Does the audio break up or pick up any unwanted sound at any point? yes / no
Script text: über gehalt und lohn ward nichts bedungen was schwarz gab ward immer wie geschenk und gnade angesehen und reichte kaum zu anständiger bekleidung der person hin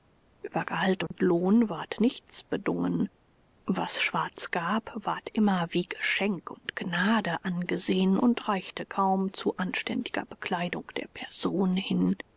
yes